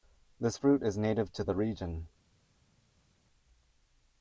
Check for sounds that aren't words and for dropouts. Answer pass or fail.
pass